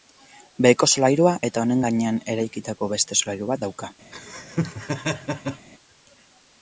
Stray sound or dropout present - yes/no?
yes